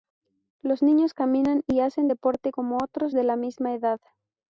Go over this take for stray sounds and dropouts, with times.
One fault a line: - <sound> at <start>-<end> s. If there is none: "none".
none